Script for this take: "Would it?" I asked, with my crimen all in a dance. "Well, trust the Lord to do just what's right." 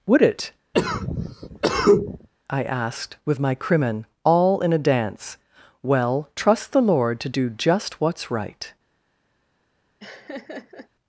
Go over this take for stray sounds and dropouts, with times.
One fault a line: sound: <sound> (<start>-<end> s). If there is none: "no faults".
sound: cough (0.7-2.3 s)
sound: laugh (10.0-10.9 s)